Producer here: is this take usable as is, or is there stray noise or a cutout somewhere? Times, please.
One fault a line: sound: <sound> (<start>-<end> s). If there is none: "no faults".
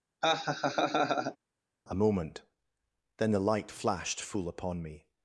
sound: laugh (0.2-1.4 s)